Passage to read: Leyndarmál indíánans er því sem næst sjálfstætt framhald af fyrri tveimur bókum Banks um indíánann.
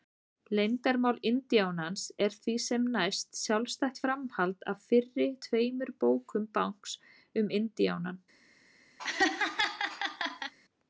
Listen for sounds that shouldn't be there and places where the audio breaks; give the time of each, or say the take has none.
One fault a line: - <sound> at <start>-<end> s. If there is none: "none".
- laugh at 9.0-10.5 s